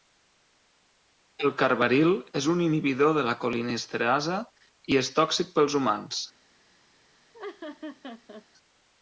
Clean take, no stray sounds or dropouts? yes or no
no